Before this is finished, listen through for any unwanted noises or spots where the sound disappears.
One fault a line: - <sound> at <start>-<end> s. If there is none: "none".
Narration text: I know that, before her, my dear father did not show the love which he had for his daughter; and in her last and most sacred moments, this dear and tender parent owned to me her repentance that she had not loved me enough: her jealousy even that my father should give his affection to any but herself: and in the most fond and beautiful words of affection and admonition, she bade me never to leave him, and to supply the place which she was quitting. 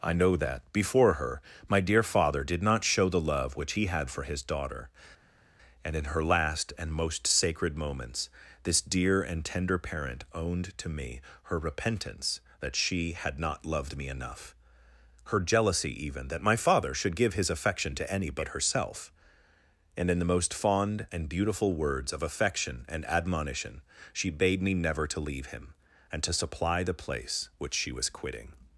none